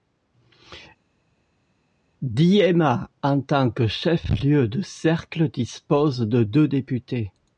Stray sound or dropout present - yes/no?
no